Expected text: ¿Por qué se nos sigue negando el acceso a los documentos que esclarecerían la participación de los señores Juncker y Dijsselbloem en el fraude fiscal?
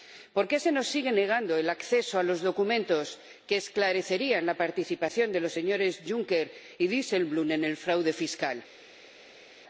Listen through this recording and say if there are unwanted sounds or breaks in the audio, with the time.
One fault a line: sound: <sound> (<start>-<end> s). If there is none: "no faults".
no faults